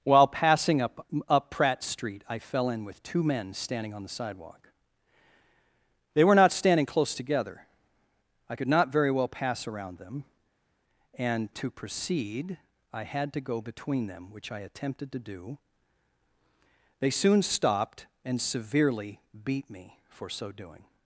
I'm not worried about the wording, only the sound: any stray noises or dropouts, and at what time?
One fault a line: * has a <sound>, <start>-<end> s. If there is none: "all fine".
all fine